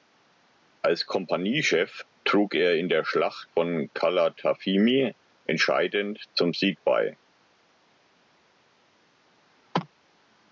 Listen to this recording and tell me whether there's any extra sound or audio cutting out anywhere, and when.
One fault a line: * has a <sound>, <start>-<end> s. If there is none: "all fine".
all fine